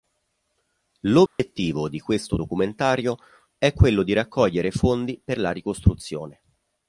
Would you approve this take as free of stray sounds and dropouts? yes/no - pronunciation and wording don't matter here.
no